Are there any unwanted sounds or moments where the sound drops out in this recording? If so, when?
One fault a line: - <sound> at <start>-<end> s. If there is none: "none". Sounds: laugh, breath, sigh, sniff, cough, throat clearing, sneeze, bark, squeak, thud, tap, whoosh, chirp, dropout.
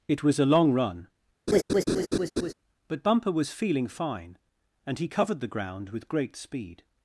- laugh at 1.5-2.5 s